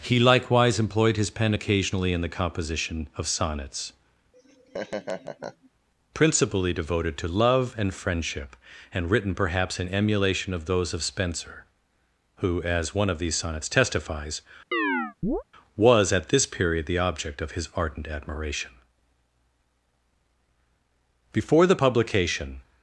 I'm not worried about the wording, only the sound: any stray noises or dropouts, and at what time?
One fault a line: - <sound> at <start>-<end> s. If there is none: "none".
- laugh at 4.3-5.7 s
- chirp at 14.7-15.4 s